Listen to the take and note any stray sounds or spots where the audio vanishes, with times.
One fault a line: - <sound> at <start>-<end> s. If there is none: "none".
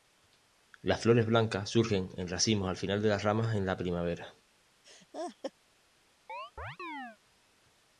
- laugh at 4.8-5.5 s
- chirp at 6.3-7.2 s